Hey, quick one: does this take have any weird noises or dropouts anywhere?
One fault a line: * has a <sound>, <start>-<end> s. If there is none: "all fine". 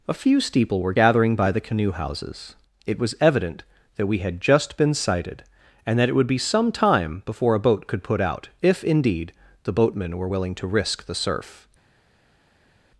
all fine